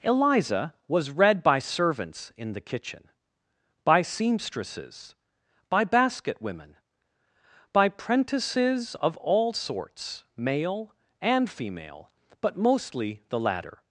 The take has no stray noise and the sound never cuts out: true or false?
true